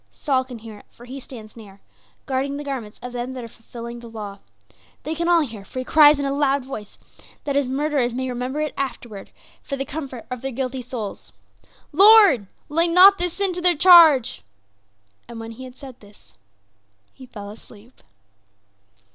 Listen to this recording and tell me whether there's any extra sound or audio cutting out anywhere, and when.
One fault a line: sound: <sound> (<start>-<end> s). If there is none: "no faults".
no faults